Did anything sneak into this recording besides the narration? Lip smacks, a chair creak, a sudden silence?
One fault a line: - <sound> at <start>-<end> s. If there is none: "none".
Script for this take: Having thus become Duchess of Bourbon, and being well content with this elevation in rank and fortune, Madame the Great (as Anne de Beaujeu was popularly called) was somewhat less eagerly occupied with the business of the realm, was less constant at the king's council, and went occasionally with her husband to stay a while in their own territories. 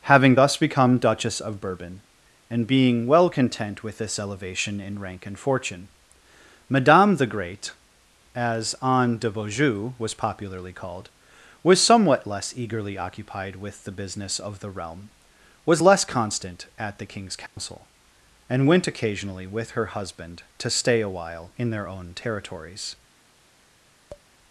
- dropout at 17.5-17.6 s
- tap at 24.1-24.3 s